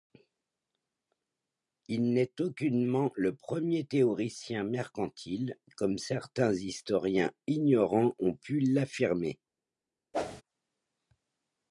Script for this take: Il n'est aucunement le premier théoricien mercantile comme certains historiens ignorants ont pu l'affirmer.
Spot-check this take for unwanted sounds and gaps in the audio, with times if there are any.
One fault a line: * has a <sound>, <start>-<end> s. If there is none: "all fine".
* has a whoosh, 10.1-10.4 s